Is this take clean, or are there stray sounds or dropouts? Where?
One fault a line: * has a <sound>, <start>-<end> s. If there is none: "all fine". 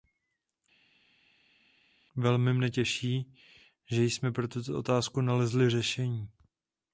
all fine